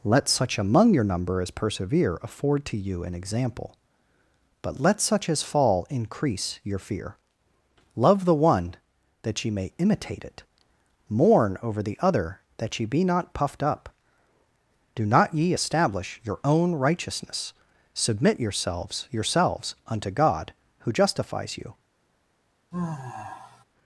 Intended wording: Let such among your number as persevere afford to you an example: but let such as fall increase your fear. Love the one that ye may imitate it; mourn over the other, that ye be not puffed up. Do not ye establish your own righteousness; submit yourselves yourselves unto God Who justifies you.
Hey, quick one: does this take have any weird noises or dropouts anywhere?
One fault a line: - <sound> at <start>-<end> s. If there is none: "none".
- sigh at 22.7-23.6 s